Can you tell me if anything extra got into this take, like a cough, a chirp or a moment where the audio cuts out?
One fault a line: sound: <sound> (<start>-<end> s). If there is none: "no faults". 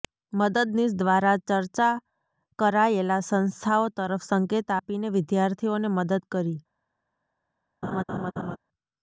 sound: laugh (7.8-8.6 s)